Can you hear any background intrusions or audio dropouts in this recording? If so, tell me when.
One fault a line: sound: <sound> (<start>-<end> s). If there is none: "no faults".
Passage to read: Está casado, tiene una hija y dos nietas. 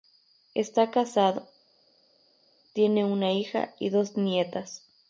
no faults